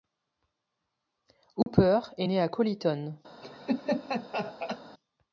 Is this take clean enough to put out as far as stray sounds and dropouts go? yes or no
no